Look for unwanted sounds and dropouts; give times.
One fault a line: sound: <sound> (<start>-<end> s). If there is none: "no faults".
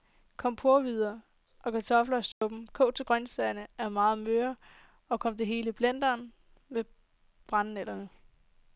sound: dropout (2.3-2.4 s)